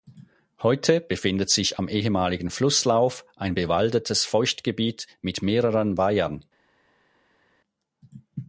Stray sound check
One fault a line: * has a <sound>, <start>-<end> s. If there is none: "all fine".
all fine